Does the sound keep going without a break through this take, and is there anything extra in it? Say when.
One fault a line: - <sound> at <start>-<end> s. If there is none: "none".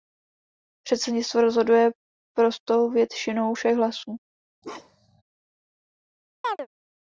- bark at 4.6-5.2 s
- chirp at 6.4-6.7 s